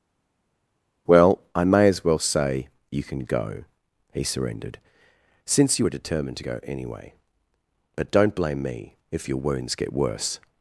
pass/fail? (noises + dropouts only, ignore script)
pass